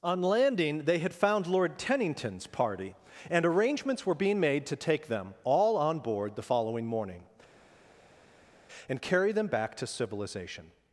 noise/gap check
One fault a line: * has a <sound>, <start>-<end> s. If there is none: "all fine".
all fine